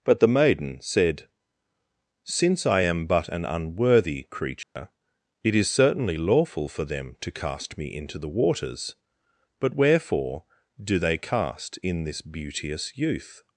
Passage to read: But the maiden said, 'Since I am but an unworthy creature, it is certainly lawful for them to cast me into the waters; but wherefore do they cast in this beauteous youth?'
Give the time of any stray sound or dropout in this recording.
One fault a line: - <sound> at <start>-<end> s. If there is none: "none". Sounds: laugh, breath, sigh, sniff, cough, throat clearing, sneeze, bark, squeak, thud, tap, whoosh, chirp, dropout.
- dropout at 4.6-4.8 s